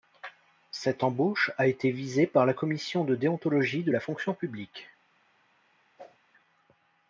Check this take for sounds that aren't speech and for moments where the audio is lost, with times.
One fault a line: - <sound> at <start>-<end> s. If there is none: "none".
- whoosh at 6.0-6.2 s